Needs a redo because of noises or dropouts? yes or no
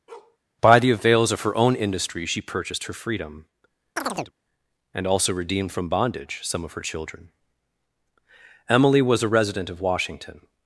yes